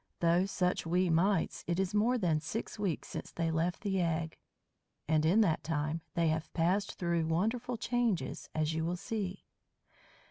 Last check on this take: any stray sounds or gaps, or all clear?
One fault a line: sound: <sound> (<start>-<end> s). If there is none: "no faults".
no faults